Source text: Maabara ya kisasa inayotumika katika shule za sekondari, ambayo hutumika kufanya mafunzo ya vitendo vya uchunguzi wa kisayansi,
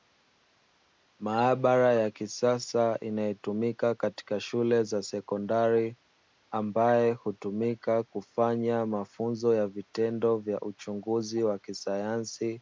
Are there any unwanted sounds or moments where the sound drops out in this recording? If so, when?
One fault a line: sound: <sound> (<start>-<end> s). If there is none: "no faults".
no faults